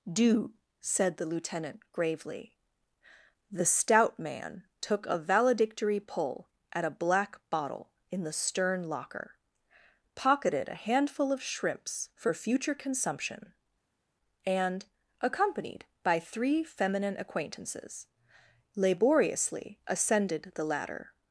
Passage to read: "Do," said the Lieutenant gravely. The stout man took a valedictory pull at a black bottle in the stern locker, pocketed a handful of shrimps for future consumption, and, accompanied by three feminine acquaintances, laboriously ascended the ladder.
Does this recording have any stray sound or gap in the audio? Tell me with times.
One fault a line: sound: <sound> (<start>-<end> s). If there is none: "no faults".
no faults